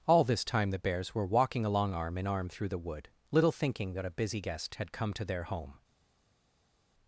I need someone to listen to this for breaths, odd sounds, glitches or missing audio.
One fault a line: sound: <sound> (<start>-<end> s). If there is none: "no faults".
no faults